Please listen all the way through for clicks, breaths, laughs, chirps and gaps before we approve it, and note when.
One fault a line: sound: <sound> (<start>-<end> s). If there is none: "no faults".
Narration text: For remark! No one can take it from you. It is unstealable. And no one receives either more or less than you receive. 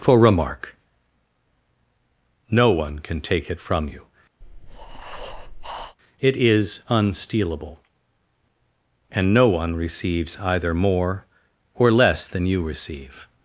sound: breath (4.4-6.0 s)